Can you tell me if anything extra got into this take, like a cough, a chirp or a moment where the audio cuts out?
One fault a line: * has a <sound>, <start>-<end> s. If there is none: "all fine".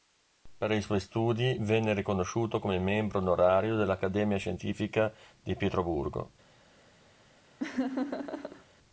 * has a laugh, 7.6-8.6 s